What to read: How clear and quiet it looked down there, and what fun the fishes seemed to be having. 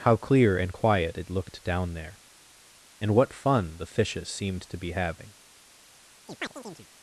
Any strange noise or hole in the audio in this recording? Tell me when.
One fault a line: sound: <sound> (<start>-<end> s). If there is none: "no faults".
sound: chirp (6.3-6.9 s)